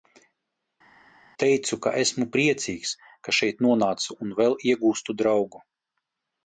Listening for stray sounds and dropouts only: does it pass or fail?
pass